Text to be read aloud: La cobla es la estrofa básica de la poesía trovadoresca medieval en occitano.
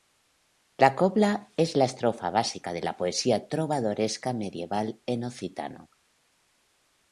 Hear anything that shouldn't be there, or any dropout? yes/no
no